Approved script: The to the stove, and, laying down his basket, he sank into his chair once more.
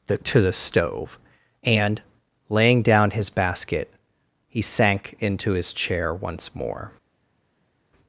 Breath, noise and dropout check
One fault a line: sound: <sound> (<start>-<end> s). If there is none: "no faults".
no faults